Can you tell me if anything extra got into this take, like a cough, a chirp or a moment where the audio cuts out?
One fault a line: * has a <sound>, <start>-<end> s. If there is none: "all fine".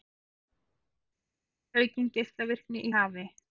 all fine